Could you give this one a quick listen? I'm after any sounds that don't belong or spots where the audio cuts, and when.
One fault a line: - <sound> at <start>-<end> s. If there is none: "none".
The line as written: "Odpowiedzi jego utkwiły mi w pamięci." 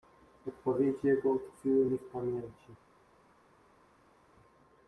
none